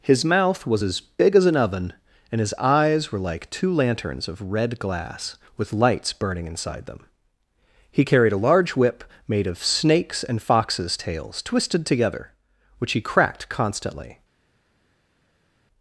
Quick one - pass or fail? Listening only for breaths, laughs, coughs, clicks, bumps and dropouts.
pass